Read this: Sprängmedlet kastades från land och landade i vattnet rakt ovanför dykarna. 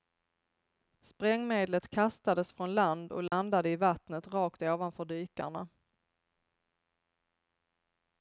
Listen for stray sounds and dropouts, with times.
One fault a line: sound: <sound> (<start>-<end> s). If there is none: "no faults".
sound: dropout (3.3-3.3 s)